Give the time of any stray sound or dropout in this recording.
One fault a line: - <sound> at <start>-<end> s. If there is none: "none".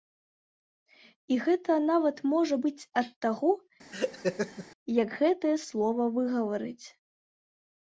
- laugh at 3.9-4.7 s